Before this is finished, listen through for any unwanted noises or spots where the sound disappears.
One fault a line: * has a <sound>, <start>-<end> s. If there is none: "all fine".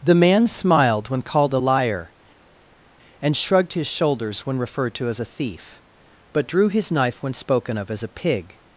all fine